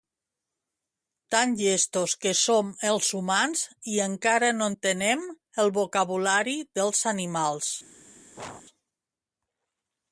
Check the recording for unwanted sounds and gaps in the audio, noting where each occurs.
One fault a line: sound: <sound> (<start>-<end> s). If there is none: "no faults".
sound: sneeze (8.3-8.6 s)